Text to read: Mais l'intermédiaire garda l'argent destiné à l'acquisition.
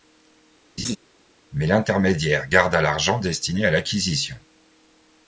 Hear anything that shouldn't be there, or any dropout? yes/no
yes